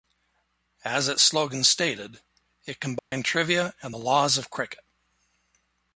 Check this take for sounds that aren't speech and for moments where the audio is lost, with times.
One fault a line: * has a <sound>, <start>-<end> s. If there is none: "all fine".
* has a dropout, 3.0-3.1 s